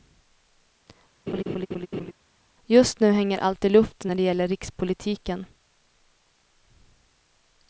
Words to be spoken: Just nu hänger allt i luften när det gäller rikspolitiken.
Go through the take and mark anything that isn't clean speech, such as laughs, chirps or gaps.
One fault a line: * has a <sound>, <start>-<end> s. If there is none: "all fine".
* has a laugh, 1.3-2.1 s